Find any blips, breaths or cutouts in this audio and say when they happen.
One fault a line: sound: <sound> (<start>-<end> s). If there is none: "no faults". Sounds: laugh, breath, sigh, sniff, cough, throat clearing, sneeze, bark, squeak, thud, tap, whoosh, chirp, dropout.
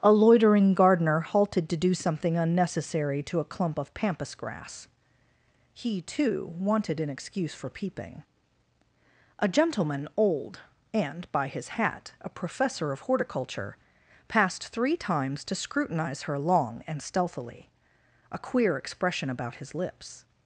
no faults